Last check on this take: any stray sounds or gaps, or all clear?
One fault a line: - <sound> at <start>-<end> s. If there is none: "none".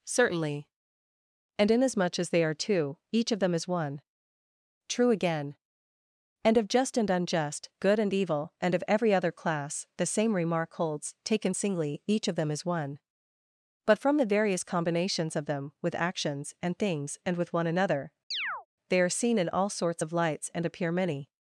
- chirp at 18.3-18.7 s